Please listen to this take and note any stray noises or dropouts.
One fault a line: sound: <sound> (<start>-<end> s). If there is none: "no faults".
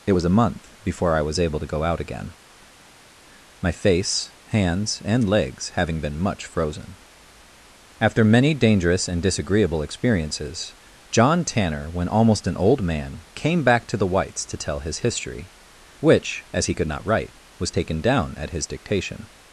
no faults